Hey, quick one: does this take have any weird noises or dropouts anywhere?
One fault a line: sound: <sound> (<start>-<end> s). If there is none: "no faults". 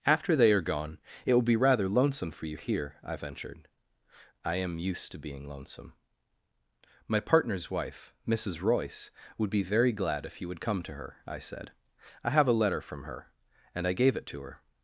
no faults